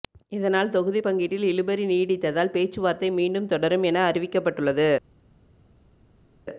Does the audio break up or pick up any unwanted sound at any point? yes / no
no